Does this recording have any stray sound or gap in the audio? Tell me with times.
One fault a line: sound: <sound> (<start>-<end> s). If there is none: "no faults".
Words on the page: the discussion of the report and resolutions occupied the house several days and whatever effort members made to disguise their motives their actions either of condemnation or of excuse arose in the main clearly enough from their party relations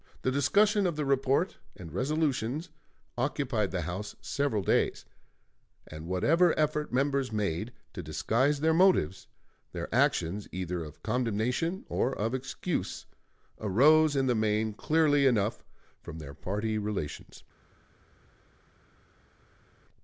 no faults